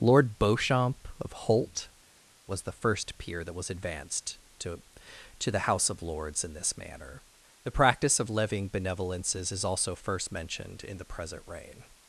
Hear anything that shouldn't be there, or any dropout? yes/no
no